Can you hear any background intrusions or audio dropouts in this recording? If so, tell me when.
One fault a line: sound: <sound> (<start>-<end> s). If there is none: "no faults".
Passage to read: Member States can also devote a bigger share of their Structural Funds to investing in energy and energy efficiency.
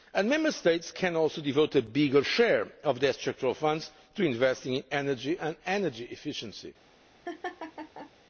sound: laugh (7.3-8.1 s)